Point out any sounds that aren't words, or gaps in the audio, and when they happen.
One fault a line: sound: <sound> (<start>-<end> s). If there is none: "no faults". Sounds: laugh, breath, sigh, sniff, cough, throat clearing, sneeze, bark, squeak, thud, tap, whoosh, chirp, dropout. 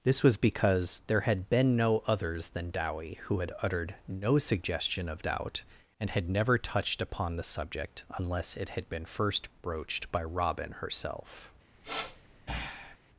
sound: sniff (11.7-13.0 s)